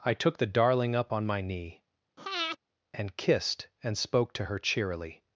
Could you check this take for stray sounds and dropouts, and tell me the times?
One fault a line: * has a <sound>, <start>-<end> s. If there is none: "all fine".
* has a breath, 2.2-2.6 s